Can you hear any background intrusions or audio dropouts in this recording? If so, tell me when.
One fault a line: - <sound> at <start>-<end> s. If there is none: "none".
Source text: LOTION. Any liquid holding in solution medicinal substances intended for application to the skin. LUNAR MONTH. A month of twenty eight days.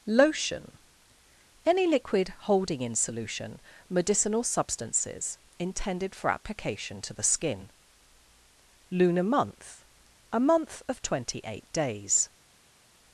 none